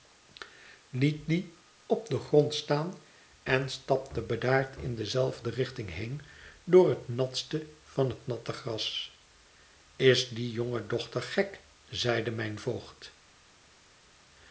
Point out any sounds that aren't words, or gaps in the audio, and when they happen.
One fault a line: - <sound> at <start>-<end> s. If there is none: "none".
none